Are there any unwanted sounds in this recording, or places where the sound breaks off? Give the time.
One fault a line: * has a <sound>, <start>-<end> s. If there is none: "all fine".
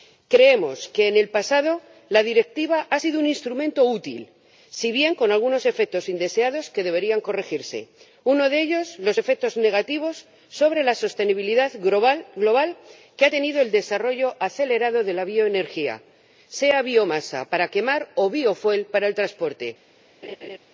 * has a laugh, 20.2-20.6 s